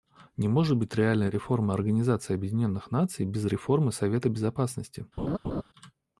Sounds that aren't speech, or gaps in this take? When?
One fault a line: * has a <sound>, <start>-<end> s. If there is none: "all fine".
* has a laugh, 5.2-5.6 s